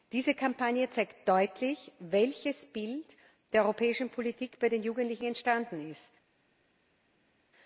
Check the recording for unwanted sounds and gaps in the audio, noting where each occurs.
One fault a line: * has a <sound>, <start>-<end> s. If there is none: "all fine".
all fine